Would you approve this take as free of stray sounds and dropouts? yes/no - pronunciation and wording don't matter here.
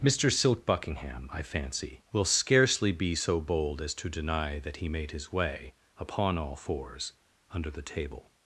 yes